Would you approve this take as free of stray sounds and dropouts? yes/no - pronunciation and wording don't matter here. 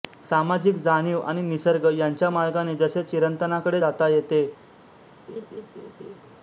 no